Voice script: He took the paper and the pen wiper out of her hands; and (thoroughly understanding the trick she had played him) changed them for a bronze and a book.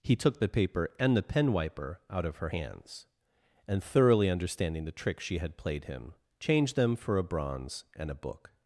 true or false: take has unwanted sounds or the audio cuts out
false